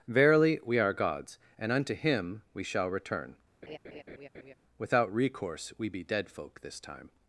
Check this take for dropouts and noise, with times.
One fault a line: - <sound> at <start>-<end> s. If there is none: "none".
- laugh at 3.6-4.5 s